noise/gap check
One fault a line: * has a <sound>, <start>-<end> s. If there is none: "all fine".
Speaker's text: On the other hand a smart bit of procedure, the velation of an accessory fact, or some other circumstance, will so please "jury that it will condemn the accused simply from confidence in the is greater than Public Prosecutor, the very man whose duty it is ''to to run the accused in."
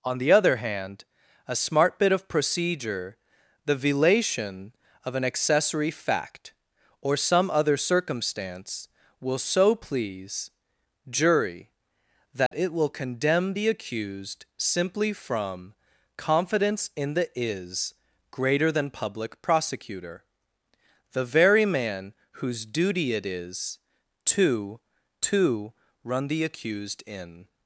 * has a dropout, 12.5-12.5 s